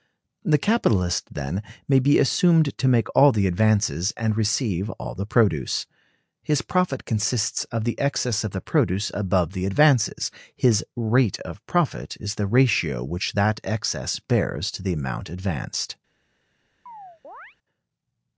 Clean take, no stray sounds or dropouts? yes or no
no